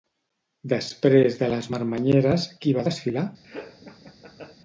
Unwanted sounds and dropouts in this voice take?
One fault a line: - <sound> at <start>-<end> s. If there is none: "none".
- laugh at 3.4-4.6 s